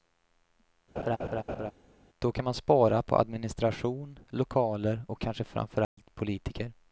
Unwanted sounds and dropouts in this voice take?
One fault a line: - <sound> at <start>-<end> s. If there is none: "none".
- laugh at 1.0-1.7 s
- dropout at 5.8-6.0 s